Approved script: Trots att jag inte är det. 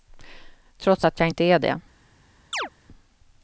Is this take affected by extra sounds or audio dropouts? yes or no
yes